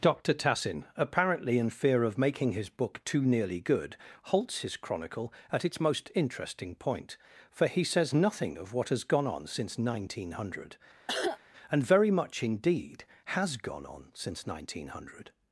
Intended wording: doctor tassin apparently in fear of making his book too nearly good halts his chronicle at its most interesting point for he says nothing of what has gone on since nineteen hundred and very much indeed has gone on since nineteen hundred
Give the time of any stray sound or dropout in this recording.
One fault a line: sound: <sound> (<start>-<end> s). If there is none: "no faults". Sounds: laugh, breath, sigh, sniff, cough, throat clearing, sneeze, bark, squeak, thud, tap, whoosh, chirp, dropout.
sound: cough (11.1-11.4 s)